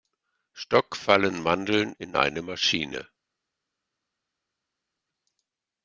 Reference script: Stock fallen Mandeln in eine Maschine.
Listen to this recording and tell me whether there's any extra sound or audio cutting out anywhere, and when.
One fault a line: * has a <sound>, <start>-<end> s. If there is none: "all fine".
all fine